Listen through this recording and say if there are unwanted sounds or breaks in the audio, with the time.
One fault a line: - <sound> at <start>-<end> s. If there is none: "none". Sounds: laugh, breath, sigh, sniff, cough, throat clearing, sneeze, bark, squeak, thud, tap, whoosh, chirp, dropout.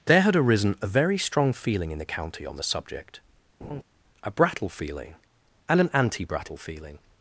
- laugh at 3.6-3.8 s